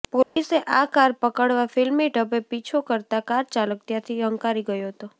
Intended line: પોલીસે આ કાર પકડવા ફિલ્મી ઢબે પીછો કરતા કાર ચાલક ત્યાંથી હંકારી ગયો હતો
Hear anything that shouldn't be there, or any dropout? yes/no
yes